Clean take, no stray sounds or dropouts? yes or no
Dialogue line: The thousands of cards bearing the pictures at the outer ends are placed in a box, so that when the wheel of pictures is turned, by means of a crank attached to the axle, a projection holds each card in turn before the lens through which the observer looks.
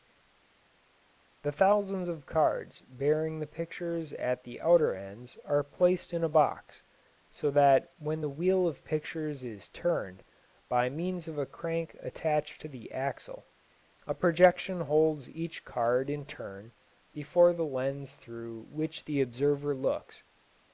yes